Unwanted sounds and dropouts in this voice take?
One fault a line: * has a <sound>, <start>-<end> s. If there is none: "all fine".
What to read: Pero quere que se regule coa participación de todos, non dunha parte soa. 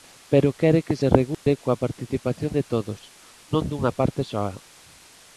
* has a dropout, 1.3-1.5 s